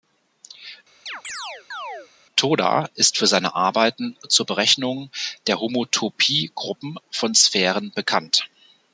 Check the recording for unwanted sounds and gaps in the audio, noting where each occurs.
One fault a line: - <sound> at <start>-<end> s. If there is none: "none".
- chirp at 1.1-2.1 s